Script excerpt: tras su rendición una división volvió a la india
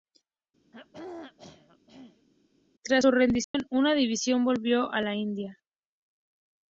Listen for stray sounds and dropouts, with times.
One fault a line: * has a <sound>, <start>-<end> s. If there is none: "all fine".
* has a throat clearing, 0.7-2.3 s
* has a dropout, 3.4-3.5 s